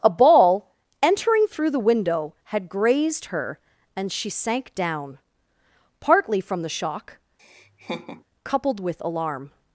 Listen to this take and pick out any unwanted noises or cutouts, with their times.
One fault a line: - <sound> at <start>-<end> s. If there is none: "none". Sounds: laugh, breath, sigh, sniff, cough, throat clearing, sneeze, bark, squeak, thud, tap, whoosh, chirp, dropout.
- laugh at 7.4-8.2 s